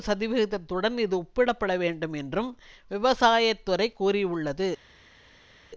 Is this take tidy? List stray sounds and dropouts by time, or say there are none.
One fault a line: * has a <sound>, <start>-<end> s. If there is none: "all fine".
all fine